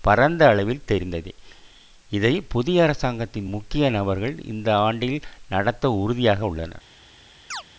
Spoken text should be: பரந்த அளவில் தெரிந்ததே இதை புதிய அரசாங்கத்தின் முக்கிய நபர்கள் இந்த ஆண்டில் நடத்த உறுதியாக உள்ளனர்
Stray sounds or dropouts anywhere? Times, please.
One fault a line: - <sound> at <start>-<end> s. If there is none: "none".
- chirp at 7.5-7.6 s